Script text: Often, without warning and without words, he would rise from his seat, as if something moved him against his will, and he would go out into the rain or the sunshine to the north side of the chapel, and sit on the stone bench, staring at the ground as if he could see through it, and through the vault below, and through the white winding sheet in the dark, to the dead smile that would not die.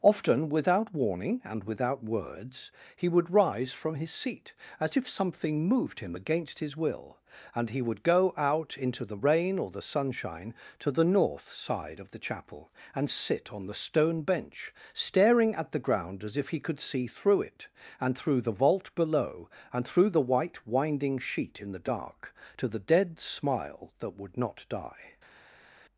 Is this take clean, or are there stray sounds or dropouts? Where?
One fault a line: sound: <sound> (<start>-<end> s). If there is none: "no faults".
no faults